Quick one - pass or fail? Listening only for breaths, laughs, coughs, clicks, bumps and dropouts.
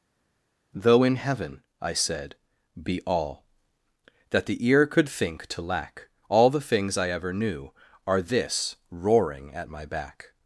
pass